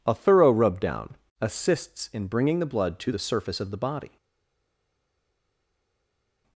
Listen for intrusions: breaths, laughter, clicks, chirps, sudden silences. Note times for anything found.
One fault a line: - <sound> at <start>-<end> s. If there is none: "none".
none